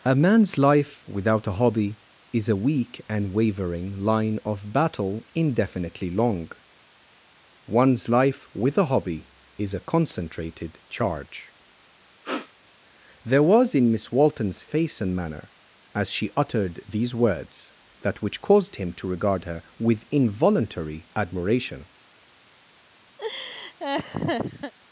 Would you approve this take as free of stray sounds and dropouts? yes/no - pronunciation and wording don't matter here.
no